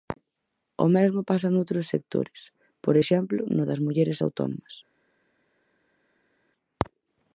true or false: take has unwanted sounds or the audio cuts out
false